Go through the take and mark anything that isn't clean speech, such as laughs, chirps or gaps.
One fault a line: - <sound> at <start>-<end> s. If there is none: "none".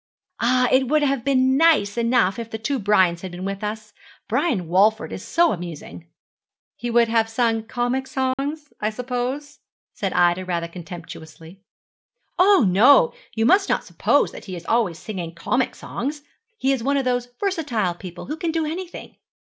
- dropout at 8.3-8.4 s